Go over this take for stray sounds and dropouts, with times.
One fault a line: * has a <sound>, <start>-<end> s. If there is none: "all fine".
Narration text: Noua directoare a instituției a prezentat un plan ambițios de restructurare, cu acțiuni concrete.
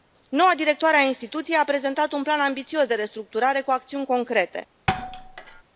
* has a thud, 4.9-5.6 s